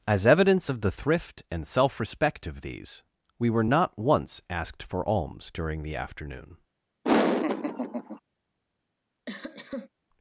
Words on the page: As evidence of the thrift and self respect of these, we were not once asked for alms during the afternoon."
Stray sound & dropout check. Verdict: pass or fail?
fail